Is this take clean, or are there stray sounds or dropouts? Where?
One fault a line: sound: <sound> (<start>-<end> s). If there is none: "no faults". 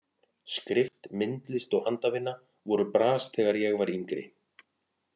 no faults